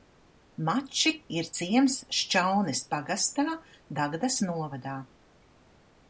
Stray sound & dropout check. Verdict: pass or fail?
pass